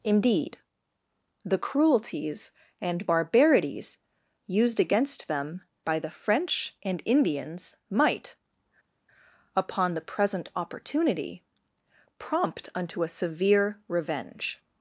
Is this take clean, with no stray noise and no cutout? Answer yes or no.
yes